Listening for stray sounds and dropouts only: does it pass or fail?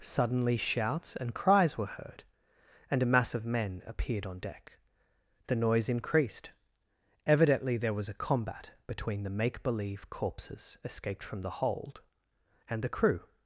pass